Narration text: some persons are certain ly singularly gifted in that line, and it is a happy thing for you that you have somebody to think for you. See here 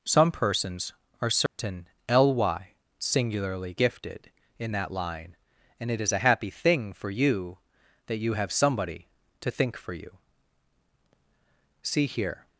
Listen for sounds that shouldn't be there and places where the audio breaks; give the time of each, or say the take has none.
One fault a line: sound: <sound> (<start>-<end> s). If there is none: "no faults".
sound: dropout (1.5-1.6 s)